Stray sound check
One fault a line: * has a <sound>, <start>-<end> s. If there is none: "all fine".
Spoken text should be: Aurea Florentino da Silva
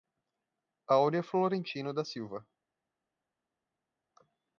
all fine